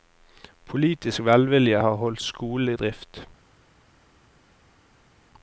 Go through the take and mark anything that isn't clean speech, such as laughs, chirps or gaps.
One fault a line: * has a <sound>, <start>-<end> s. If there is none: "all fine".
all fine